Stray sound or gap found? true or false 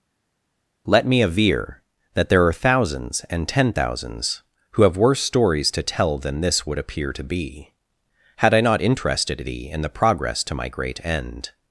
false